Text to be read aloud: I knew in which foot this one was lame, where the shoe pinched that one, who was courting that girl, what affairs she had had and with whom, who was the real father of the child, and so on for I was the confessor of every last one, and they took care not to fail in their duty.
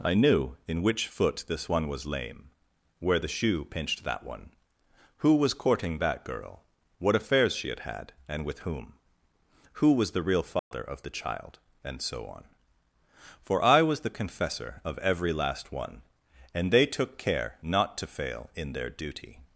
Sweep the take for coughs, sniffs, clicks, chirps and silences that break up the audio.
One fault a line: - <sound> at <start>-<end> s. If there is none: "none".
- dropout at 10.6-10.7 s